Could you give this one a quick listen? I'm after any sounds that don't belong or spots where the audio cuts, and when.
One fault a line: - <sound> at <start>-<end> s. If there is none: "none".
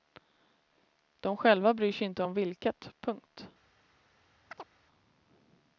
- chirp at 4.5-4.7 s